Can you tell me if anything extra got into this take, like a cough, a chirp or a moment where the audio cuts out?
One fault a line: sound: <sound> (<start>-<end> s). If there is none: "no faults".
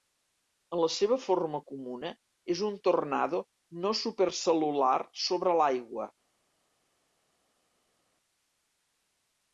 no faults